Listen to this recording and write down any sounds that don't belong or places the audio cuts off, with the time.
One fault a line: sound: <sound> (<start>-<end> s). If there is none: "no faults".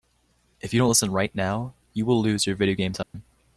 sound: dropout (3.0-3.1 s)